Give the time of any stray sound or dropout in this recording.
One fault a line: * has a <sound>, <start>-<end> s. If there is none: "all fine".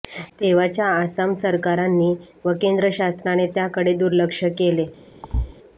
* has a thud, 5.2-5.5 s